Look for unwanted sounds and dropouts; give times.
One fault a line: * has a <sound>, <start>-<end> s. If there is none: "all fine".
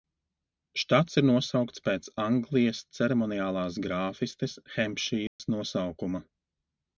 * has a dropout, 5.3-5.4 s